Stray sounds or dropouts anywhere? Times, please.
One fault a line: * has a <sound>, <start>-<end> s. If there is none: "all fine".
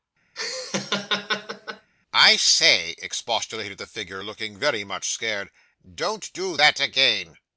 * has a laugh, 0.4-1.9 s